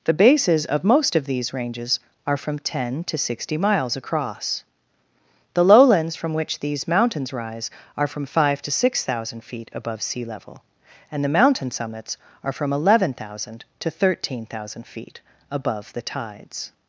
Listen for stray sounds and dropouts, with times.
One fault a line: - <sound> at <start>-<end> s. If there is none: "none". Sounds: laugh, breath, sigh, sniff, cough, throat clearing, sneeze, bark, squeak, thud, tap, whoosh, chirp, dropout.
none